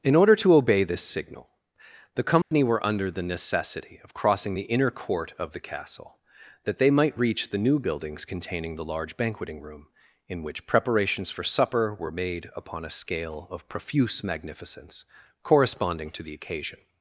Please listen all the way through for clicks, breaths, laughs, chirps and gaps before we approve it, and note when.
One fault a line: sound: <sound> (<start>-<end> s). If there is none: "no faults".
sound: dropout (2.4-2.5 s)